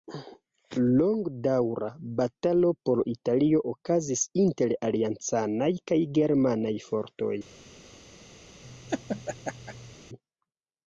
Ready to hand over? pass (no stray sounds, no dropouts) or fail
fail